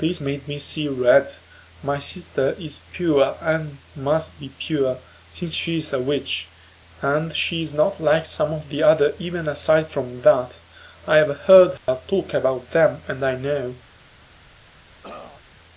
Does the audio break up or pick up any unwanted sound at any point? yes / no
yes